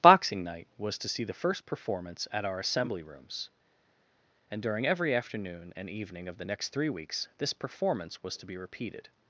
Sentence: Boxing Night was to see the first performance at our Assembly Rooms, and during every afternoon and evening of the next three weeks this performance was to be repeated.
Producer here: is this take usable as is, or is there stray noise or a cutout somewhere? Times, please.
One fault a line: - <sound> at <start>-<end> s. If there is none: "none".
none